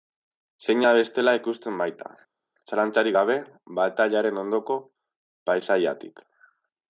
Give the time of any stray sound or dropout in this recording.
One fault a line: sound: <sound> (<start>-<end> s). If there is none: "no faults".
no faults